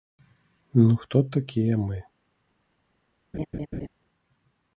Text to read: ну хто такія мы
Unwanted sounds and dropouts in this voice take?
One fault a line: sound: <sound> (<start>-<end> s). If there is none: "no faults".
sound: laugh (3.3-3.9 s)